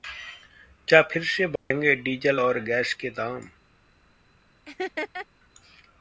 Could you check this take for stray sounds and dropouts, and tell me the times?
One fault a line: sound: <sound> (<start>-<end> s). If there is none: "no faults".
sound: dropout (1.6-1.7 s)
sound: laugh (4.7-5.3 s)